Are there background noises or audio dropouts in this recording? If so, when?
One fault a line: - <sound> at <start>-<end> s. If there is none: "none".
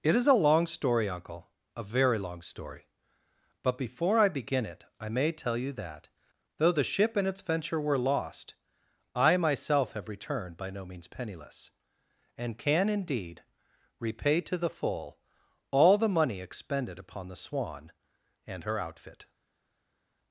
none